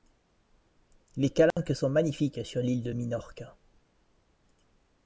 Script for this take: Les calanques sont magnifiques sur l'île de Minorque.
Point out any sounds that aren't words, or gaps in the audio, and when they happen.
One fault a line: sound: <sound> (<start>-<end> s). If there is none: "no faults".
sound: dropout (1.5-1.6 s)